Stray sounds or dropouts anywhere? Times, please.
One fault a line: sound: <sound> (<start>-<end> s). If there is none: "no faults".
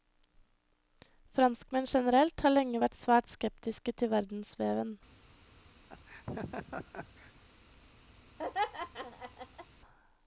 sound: laugh (5.9-7.3 s)
sound: laugh (8.4-9.7 s)